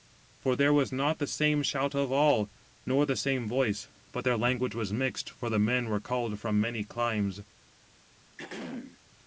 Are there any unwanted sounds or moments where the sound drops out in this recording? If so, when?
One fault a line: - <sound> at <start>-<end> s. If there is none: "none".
- throat clearing at 8.4-9.0 s